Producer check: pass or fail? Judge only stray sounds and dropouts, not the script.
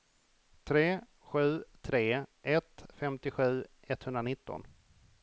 pass